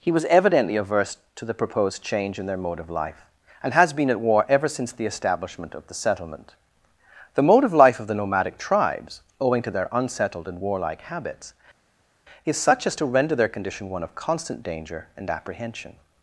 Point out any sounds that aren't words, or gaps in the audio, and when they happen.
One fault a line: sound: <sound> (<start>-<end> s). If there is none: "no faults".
no faults